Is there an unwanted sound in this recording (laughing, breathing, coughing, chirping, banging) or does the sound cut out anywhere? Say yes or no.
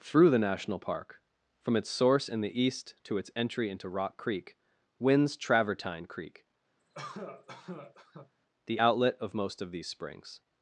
yes